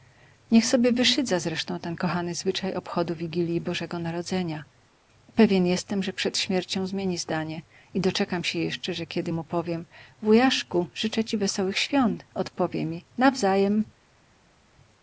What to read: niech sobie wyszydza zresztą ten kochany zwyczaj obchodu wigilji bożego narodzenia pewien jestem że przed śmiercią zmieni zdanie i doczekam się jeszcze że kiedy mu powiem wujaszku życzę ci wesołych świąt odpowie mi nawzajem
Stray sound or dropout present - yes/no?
no